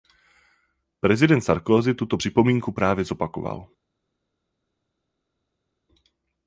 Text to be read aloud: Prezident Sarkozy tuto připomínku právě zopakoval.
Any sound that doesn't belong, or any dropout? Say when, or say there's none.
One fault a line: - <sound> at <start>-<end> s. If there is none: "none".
none